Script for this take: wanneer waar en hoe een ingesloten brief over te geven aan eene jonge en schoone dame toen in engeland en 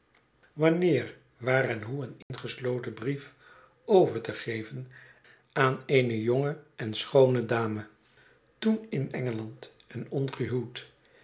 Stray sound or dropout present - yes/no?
yes